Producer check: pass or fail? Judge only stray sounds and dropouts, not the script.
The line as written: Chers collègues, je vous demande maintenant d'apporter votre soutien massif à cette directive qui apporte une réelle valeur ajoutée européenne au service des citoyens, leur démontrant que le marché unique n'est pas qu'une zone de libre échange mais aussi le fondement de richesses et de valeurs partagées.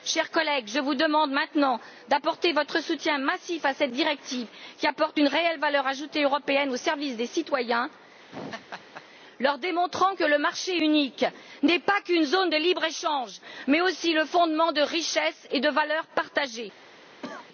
fail